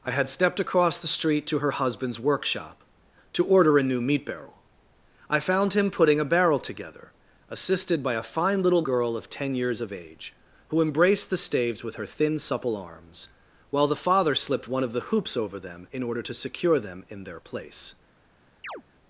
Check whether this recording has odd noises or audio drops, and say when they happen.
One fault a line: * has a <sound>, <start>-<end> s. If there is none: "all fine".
* has a chirp, 18.6-18.8 s